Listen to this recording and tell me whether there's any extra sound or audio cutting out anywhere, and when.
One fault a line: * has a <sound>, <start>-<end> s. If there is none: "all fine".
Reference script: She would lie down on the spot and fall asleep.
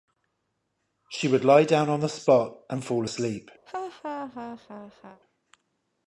* has a laugh, 3.7-5.2 s